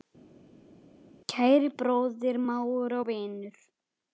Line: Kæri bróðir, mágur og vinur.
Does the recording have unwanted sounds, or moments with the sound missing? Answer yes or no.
no